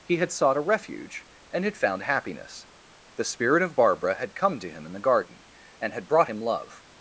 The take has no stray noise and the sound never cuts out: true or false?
true